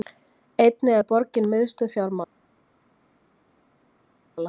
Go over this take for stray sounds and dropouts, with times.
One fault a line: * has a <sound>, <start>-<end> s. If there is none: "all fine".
all fine